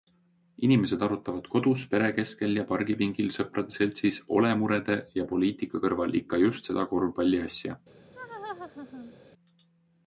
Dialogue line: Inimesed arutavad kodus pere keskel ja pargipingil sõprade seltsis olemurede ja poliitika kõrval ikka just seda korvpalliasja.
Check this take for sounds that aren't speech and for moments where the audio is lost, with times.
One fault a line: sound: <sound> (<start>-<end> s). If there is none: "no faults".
sound: laugh (8.1-9.2 s)